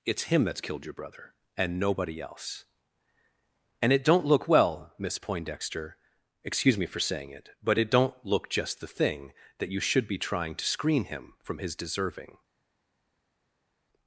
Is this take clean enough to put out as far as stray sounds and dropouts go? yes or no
yes